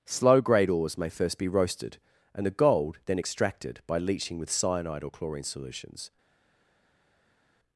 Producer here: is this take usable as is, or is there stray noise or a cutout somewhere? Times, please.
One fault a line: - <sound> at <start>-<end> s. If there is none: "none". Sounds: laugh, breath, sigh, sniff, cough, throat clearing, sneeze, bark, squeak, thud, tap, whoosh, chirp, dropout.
none